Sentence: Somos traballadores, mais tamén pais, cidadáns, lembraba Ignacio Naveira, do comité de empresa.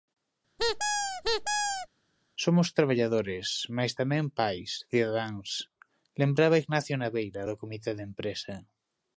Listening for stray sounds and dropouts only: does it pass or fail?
fail